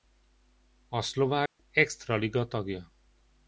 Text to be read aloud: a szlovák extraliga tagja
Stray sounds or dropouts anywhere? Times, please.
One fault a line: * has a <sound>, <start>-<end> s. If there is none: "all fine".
* has a dropout, 1.5-1.6 s